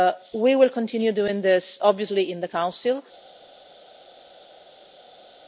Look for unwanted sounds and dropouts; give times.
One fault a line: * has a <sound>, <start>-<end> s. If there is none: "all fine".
all fine